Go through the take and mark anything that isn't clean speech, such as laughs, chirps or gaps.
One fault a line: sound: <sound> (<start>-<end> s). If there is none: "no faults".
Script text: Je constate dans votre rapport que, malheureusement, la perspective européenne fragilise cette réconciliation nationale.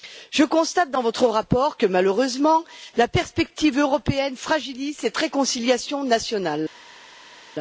no faults